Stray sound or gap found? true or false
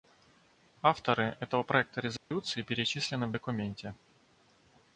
true